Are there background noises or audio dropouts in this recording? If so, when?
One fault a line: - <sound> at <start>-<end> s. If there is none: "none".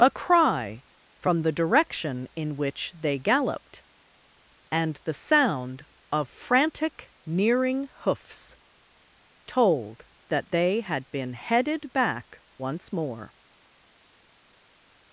none